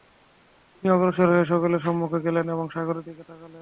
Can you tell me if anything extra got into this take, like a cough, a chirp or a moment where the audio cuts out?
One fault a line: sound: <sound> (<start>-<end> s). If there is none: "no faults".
no faults